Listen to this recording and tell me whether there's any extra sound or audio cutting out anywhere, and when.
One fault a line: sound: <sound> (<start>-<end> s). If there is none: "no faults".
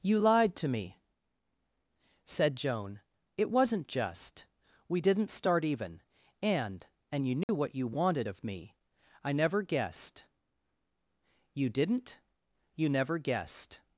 sound: dropout (7.4-7.5 s)